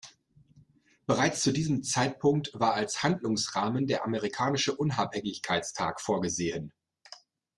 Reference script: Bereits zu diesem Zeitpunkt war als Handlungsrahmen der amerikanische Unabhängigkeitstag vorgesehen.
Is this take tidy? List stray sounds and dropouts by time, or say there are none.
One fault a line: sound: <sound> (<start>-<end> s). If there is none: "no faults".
no faults